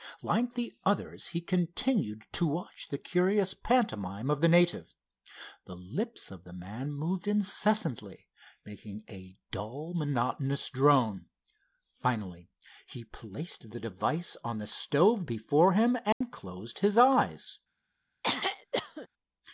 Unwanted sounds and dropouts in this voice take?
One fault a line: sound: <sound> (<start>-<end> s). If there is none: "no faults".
sound: dropout (16.1-16.2 s)
sound: throat clearing (18.2-19.1 s)